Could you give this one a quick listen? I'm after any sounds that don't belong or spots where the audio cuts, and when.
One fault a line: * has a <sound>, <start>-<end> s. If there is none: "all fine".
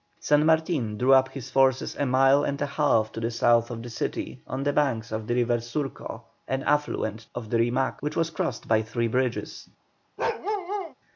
* has a bark, 10.2-10.9 s